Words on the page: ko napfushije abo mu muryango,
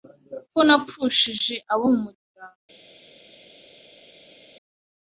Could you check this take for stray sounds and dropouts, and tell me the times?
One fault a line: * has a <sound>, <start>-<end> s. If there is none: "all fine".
all fine